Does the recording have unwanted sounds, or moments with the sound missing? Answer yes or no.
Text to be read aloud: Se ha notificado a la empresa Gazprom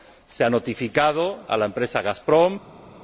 no